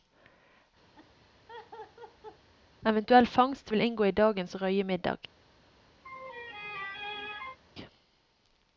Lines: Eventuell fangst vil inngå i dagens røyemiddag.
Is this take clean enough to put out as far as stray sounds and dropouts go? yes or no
no